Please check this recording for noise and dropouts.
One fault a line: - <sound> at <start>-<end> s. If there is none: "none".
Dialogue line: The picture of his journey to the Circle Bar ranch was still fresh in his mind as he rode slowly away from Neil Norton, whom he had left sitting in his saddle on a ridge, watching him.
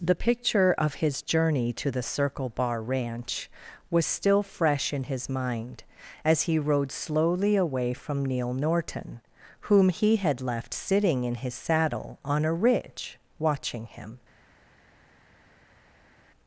none